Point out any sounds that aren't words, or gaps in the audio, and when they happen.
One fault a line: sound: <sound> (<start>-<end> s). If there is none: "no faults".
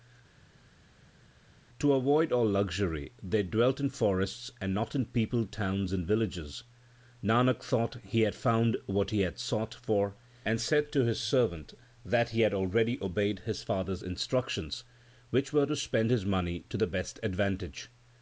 no faults